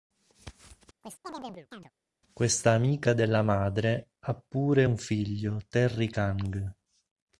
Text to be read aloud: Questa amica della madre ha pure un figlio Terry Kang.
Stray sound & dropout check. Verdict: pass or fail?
fail